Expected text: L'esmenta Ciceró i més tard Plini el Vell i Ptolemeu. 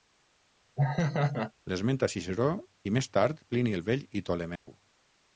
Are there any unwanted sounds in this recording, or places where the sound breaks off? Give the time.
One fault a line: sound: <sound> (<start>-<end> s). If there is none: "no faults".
sound: laugh (0.8-1.5 s)
sound: dropout (4.6-4.7 s)